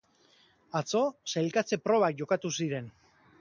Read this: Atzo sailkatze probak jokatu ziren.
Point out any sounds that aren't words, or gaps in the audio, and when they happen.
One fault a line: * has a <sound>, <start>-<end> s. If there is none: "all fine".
all fine